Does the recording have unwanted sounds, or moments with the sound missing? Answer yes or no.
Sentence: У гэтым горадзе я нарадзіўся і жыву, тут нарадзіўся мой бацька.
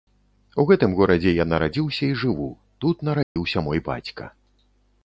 yes